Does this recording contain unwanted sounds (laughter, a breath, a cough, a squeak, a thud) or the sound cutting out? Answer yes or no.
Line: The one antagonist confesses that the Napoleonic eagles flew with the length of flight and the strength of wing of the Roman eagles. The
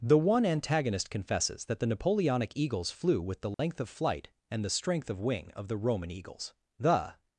yes